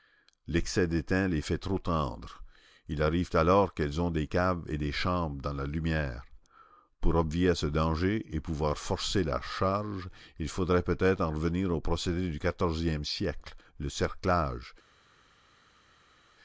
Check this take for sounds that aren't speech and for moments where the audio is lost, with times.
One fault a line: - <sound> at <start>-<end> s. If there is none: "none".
none